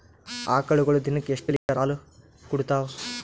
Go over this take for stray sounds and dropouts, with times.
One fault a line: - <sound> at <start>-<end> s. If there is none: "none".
- dropout at 1.6-1.7 s